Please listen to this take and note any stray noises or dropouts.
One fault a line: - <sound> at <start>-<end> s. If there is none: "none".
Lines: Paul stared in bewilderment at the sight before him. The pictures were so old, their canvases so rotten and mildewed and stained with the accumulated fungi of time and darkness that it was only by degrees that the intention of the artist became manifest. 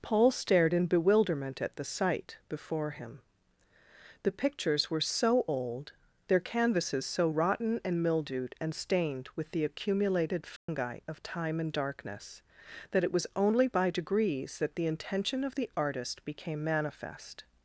- dropout at 10.6-10.7 s